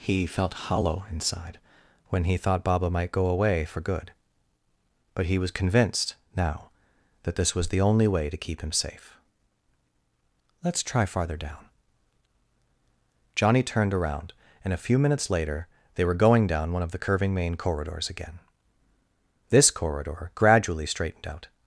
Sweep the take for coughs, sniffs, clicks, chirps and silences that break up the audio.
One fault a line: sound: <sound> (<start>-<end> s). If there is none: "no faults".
no faults